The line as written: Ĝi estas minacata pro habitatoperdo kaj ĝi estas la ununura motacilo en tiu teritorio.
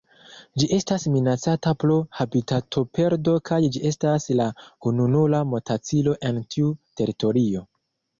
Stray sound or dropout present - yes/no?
no